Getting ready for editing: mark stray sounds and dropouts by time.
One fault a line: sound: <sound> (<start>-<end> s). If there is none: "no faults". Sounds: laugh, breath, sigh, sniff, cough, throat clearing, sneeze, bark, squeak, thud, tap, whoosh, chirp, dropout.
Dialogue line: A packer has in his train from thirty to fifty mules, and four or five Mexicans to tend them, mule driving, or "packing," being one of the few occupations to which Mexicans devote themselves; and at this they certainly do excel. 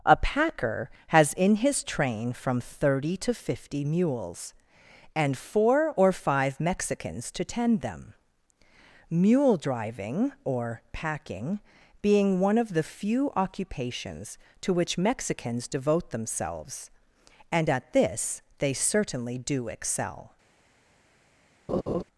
sound: laugh (21.7-22.0 s)